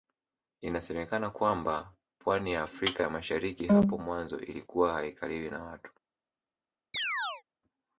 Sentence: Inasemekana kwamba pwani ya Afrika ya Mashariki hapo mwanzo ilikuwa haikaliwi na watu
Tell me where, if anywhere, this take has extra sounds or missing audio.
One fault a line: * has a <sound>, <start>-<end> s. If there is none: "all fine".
* has a chirp, 6.9-7.4 s